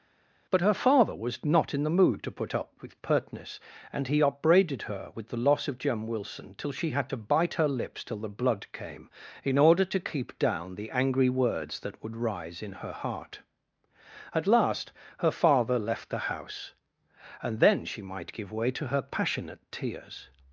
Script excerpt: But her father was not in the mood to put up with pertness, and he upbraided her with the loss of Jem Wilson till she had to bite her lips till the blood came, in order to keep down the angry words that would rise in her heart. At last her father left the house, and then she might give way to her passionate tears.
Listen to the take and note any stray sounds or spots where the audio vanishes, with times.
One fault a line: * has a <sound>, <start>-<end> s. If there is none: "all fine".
all fine